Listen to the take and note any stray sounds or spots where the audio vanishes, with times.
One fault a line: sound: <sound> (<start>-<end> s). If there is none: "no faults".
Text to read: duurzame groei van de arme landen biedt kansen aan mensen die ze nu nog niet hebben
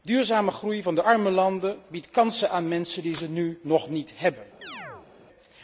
sound: chirp (4.6-5.1 s)